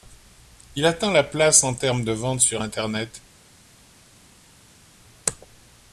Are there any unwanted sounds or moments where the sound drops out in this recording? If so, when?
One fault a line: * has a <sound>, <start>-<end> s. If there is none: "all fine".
all fine